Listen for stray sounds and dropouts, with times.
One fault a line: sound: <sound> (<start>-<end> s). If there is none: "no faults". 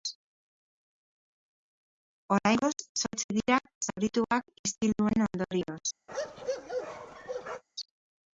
sound: bark (6.1-7.6 s)